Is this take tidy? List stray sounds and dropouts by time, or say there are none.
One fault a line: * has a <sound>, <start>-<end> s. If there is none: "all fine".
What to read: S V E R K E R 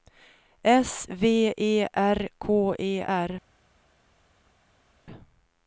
all fine